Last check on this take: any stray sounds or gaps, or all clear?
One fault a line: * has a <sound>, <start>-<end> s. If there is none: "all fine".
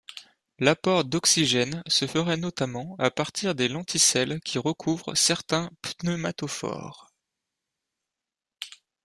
all fine